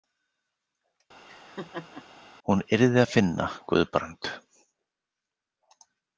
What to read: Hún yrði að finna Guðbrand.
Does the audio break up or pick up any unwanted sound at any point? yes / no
yes